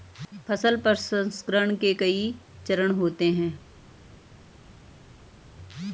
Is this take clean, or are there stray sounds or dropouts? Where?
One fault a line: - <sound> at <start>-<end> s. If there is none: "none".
none